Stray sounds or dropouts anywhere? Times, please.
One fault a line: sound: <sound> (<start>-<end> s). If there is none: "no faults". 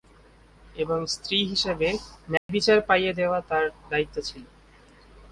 sound: dropout (2.4-2.5 s)